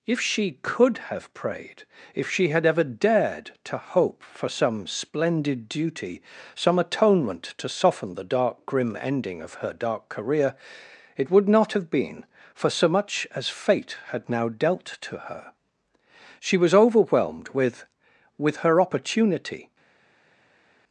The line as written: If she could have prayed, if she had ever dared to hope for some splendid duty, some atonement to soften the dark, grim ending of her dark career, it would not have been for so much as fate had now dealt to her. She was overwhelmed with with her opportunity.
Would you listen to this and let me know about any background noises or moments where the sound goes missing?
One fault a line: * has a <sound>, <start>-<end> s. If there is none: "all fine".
all fine